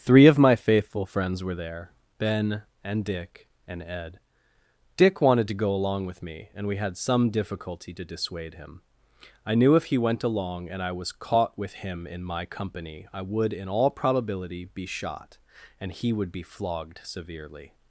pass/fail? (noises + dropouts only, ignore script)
pass